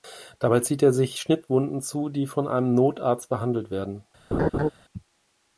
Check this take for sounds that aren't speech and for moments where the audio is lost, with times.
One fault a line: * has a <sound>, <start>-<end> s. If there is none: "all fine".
* has a laugh, 4.3-4.7 s